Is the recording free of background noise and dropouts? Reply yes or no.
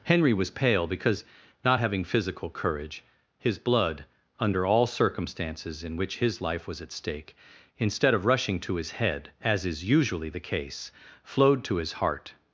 yes